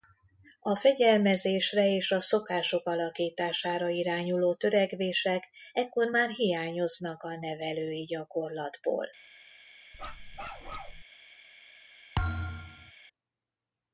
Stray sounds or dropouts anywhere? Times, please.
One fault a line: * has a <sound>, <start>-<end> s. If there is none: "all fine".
* has a bark, 9.9-11.0 s
* has a thud, 12.2-12.9 s